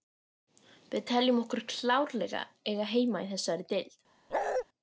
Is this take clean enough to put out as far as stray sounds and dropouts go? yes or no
no